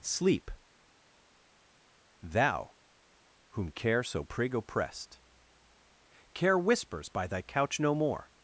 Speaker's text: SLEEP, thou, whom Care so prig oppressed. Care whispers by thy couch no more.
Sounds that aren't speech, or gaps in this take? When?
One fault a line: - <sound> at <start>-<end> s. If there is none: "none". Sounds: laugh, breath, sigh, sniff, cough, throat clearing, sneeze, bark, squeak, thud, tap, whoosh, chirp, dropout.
none